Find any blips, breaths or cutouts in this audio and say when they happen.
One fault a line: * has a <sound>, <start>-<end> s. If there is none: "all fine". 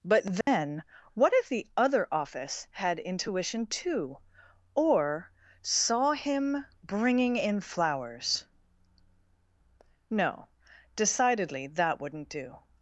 * has a dropout, 0.4-0.5 s